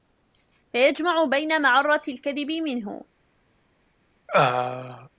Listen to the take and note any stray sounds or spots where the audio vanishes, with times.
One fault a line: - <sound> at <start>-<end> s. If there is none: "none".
- throat clearing at 4.3-5.1 s